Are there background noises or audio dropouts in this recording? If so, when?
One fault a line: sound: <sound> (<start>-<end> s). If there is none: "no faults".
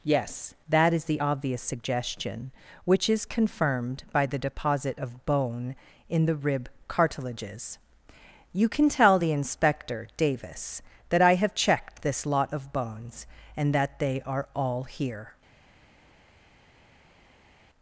no faults